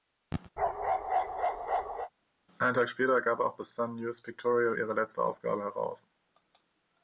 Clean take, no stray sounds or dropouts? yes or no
no